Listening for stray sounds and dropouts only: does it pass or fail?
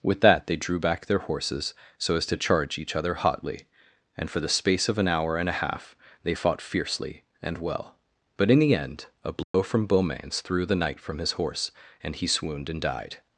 fail